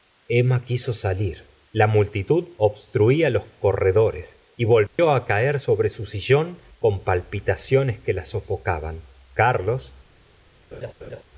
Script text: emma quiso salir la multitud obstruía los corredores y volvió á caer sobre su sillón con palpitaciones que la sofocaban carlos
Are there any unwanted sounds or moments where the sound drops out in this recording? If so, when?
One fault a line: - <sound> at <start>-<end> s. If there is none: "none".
- dropout at 4.9-5.0 s
- laugh at 10.7-11.2 s